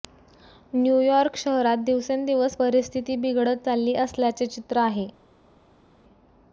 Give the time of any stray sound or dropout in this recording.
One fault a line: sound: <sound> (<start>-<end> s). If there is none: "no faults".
no faults